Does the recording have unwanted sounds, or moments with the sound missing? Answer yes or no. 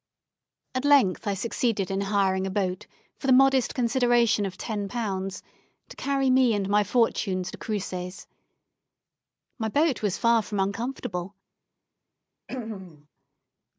yes